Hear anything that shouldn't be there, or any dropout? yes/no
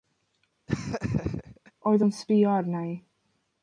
yes